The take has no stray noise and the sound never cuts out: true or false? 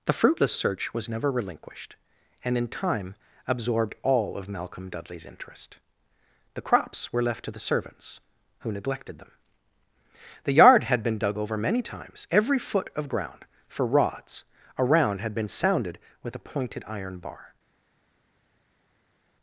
true